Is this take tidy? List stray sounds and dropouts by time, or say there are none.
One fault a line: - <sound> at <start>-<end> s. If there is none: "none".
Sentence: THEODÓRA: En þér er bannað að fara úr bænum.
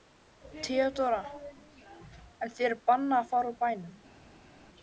none